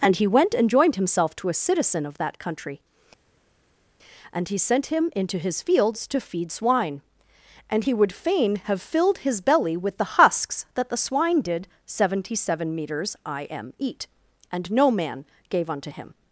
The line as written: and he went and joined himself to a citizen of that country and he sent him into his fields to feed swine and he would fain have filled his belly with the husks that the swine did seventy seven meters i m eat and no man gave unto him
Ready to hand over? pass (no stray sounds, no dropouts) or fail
pass